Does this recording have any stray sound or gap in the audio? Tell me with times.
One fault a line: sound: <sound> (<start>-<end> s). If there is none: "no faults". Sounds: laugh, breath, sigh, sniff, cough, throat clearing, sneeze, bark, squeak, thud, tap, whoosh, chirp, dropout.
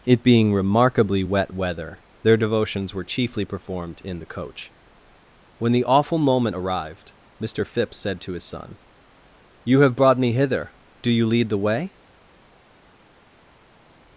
no faults